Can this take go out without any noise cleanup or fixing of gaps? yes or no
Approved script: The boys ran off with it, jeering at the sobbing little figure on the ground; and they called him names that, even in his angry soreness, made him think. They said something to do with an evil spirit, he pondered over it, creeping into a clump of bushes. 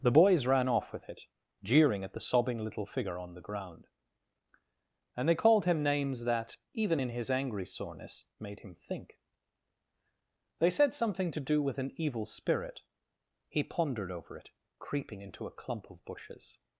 yes